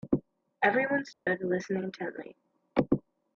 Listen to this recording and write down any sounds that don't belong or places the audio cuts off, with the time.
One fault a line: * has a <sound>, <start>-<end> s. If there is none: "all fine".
* has a dropout, 1.1-1.3 s